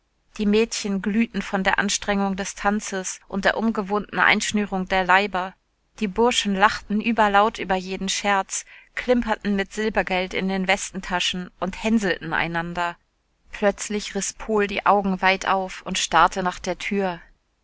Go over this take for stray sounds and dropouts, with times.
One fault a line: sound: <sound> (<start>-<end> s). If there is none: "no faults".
no faults